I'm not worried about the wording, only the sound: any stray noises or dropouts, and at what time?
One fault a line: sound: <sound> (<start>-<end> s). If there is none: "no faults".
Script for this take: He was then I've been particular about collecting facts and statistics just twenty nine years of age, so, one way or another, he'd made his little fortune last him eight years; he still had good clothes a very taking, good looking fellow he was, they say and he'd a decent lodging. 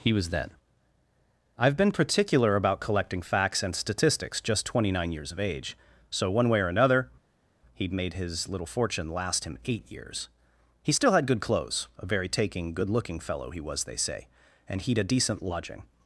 no faults